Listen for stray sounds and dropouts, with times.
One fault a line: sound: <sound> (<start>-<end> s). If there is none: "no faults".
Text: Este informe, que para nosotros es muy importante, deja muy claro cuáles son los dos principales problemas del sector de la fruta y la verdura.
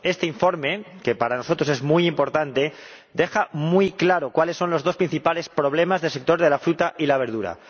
no faults